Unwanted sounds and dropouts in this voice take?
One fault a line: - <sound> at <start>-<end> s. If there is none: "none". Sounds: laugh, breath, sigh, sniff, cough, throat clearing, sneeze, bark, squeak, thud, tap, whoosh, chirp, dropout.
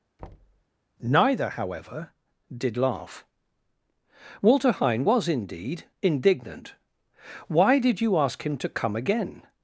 - thud at 0.2-0.6 s